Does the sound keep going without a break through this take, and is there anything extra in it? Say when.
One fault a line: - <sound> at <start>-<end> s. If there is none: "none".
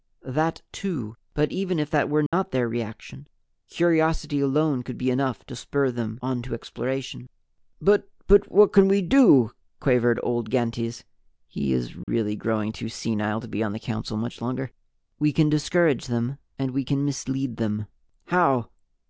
- dropout at 2.3-2.3 s
- dropout at 12.0-12.1 s